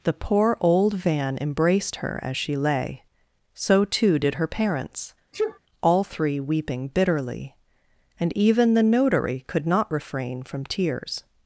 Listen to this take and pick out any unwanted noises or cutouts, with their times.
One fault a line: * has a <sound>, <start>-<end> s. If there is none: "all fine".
* has a sneeze, 5.3-5.6 s